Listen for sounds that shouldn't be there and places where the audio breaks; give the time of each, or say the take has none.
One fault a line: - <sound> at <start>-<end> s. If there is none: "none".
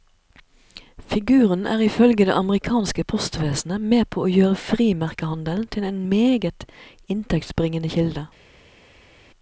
none